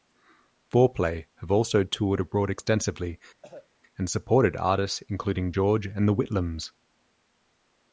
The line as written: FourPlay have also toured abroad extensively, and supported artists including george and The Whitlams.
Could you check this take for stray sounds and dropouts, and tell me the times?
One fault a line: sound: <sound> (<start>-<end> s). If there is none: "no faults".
sound: cough (3.4-3.7 s)